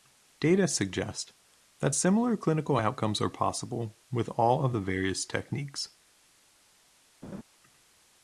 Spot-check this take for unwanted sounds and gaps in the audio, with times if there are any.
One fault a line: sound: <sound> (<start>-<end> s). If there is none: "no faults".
sound: laugh (7.2-7.4 s)